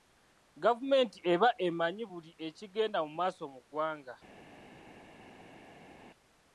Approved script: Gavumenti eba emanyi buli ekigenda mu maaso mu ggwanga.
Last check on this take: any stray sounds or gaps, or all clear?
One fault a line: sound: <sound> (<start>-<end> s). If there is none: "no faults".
no faults